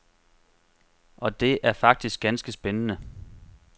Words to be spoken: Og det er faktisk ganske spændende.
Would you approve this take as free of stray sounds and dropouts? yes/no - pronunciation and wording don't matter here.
yes